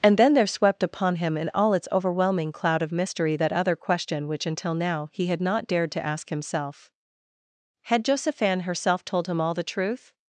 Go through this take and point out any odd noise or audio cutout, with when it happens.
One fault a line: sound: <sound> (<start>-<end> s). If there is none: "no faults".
no faults